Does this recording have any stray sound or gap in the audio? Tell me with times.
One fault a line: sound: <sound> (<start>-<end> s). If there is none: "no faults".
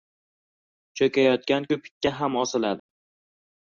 sound: dropout (2.8-2.9 s)